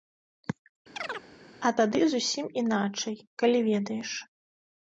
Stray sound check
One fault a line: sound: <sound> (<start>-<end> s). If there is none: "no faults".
sound: chirp (1.0-1.3 s)